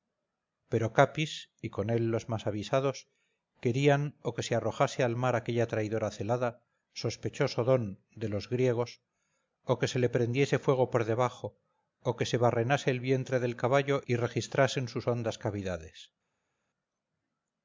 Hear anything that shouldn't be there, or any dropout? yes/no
no